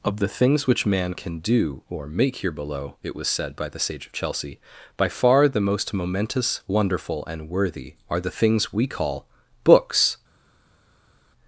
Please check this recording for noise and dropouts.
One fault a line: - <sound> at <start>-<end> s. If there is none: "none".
none